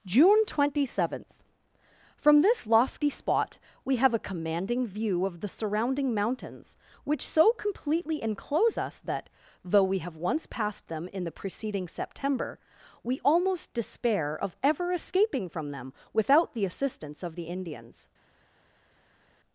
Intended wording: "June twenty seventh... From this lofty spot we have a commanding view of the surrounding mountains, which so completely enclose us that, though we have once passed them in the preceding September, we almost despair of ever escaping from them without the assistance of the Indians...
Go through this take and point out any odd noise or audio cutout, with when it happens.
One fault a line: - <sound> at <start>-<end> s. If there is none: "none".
none